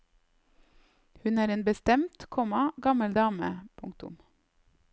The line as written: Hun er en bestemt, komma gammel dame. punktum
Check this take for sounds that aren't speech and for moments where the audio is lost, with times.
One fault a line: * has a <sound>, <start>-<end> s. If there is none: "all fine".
all fine